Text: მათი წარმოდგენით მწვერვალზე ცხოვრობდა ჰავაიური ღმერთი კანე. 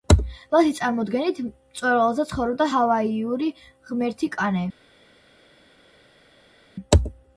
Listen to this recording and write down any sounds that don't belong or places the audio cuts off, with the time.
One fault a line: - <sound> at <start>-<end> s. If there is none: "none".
none